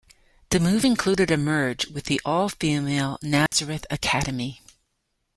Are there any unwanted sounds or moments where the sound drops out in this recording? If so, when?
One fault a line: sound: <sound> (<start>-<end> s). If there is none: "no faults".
sound: dropout (3.5-3.5 s)